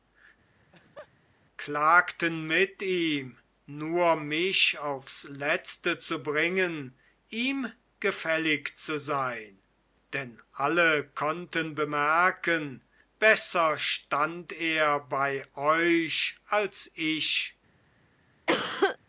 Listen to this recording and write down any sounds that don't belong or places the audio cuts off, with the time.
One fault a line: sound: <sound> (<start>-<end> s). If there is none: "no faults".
sound: laugh (0.6-1.1 s)
sound: cough (18.5-19.0 s)